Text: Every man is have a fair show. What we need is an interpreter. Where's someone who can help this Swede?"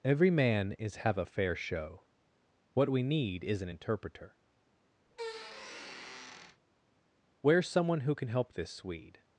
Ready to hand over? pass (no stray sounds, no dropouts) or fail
fail